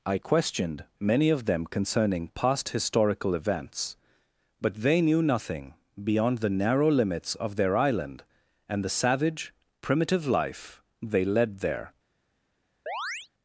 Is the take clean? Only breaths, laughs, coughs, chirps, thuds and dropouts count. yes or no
no